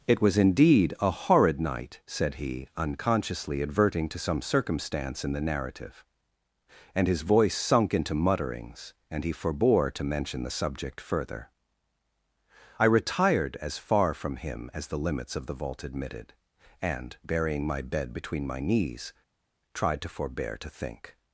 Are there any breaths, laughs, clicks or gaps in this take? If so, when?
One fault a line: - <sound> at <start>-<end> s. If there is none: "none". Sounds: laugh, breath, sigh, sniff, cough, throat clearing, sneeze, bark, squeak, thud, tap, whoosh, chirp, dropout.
none